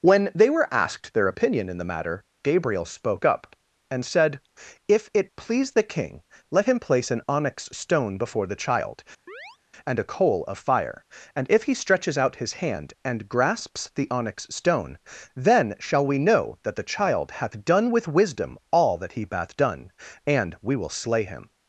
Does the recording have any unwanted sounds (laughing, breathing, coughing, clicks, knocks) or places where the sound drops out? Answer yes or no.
yes